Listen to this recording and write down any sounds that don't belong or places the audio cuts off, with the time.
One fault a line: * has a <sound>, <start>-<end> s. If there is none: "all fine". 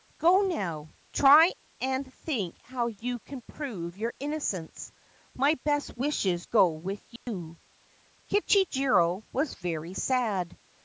* has a dropout, 7.2-7.3 s